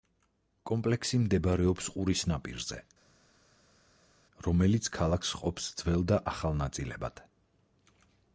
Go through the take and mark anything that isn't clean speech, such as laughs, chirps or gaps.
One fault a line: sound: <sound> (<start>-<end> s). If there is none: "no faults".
no faults